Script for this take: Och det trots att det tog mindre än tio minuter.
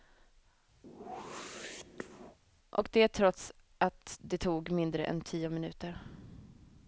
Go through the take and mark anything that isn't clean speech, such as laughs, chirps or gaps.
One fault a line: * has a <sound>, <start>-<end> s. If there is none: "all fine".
* has a whoosh, 0.8-2.4 s